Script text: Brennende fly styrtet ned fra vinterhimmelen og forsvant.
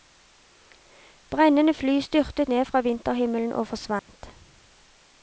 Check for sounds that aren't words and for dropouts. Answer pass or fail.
fail